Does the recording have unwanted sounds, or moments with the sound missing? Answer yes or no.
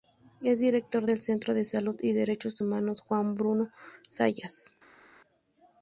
no